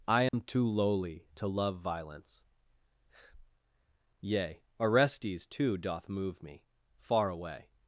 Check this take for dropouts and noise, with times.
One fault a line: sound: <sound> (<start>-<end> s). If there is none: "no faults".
sound: dropout (0.3-0.3 s)